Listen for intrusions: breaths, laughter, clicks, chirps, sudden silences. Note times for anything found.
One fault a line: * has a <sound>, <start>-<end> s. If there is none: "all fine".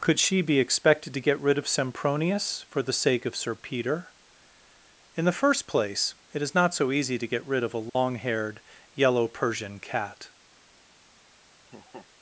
* has a dropout, 7.9-8.0 s
* has a laugh, 11.7-12.1 s